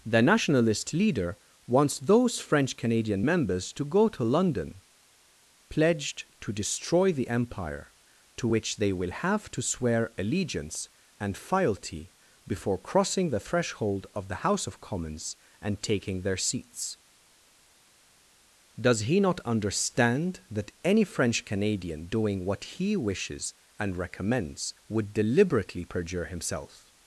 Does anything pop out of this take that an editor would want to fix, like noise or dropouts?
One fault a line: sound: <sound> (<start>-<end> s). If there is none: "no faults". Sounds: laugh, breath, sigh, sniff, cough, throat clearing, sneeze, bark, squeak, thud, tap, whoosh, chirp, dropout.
no faults